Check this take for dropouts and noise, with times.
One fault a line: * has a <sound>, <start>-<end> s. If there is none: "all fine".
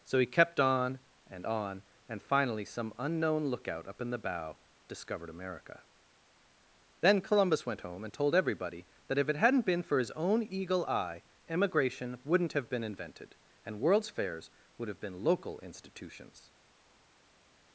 all fine